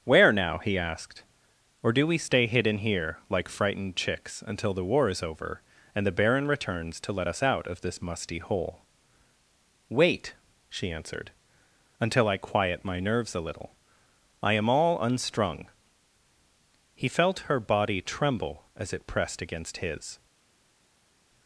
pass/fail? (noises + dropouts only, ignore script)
pass